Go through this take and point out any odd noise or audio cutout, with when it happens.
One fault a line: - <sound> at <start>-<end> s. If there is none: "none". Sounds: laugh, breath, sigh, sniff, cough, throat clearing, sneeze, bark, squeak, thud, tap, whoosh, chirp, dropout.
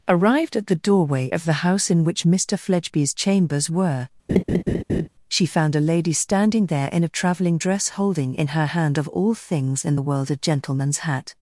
- laugh at 4.3-5.1 s